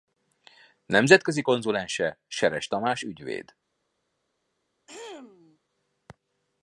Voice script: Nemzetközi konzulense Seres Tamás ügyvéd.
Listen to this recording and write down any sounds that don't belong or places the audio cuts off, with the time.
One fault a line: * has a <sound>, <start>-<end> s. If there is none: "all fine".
* has a throat clearing, 4.9-5.6 s